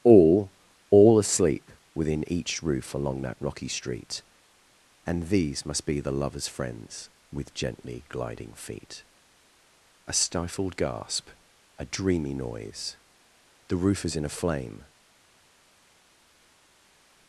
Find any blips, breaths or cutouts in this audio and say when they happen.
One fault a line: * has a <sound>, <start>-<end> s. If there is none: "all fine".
all fine